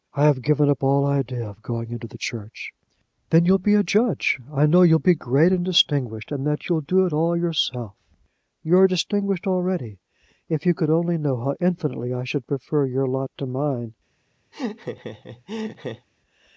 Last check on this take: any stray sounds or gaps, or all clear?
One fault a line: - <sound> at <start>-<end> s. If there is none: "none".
- laugh at 14.5-16.1 s